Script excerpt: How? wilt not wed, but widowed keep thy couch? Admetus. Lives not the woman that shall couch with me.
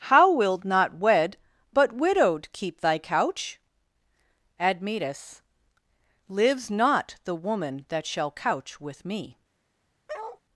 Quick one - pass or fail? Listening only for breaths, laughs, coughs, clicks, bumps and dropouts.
fail